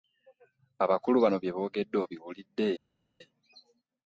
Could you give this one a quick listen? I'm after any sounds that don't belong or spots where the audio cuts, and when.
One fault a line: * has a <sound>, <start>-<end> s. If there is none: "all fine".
all fine